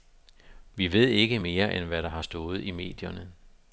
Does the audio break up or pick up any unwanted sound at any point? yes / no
no